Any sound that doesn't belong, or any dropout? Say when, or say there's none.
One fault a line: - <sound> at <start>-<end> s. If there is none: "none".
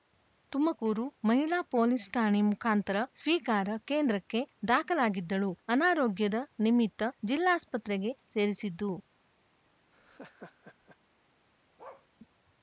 - laugh at 9.9-11.0 s
- bark at 11.8-12.1 s